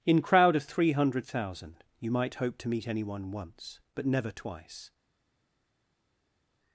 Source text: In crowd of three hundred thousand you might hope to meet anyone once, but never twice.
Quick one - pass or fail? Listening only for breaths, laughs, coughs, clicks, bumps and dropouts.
pass